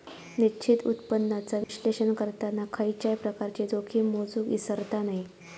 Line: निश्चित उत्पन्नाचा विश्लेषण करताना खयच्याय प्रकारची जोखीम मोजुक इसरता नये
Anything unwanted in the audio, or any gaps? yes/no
yes